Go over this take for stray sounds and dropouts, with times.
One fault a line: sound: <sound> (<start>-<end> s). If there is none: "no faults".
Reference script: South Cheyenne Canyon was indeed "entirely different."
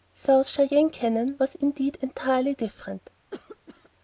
sound: cough (3.3-3.9 s)